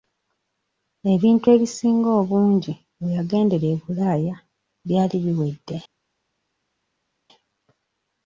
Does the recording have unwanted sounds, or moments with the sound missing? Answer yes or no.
no